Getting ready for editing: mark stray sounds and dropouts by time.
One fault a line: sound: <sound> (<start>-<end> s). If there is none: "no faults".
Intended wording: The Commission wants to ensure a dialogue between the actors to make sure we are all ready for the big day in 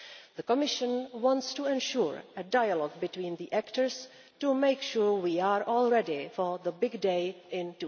no faults